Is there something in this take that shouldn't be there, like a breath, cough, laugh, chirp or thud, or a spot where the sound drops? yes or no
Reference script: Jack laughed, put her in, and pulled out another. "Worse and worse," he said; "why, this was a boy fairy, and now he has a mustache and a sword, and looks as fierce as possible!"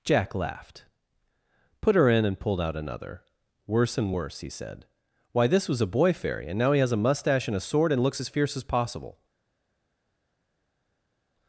no